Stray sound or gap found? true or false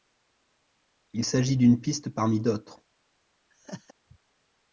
true